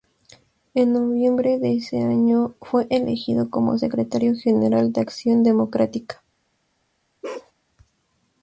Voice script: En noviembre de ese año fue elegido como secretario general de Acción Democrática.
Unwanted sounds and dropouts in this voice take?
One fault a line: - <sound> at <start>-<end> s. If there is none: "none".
- bark at 7.2-7.5 s